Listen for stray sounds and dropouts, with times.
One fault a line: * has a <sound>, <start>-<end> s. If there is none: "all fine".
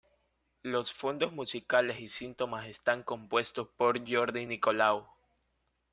all fine